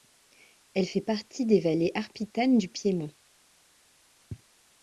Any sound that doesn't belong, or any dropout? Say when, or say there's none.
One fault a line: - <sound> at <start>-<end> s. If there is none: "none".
none